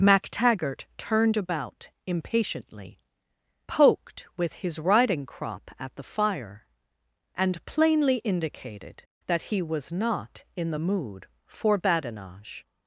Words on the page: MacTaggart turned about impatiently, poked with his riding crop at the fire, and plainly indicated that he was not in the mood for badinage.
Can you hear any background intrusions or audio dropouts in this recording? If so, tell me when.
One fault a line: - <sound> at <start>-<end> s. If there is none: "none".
none